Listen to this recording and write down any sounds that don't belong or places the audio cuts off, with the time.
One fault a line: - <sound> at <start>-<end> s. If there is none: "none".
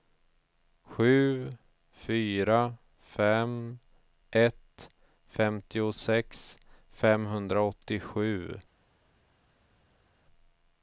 none